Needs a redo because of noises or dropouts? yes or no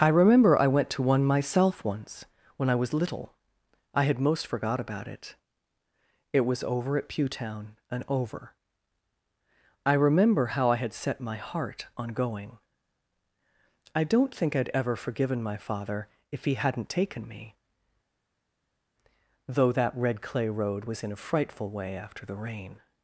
no